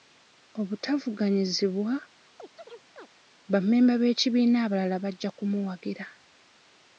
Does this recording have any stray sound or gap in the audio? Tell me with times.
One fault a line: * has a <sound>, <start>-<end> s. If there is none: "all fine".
* has a chirp, 2.4-3.1 s